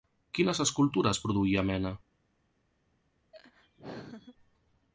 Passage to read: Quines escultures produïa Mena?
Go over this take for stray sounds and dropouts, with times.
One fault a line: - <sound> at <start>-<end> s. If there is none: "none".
- laugh at 3.3-4.4 s